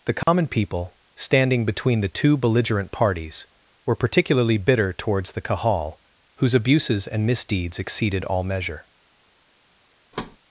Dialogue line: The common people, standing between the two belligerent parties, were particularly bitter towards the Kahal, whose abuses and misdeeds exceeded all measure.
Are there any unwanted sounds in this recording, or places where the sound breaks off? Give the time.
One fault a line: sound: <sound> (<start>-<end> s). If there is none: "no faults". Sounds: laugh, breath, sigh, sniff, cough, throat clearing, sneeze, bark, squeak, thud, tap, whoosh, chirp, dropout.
sound: dropout (0.2-0.3 s)
sound: thud (10.1-10.4 s)